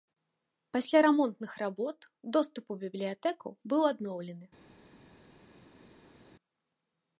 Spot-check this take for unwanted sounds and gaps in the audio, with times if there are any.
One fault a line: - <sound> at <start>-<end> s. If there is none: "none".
none